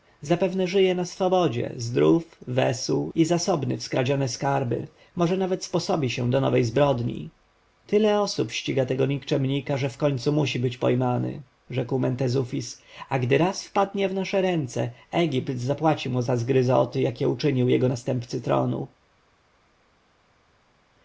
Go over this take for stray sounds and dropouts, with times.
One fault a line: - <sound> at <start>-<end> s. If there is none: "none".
none